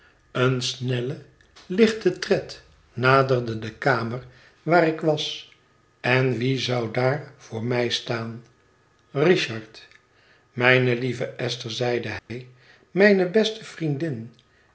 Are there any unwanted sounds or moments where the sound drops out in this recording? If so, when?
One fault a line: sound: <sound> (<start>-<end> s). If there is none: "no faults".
sound: dropout (12.2-12.3 s)